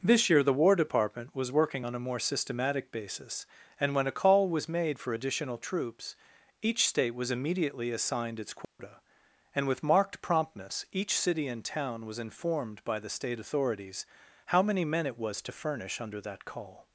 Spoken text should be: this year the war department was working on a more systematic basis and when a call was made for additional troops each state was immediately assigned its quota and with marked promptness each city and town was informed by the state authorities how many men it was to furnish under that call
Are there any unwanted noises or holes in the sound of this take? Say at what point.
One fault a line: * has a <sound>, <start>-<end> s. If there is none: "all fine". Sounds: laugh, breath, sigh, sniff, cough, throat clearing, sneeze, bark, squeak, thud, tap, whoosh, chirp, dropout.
* has a dropout, 8.6-8.8 s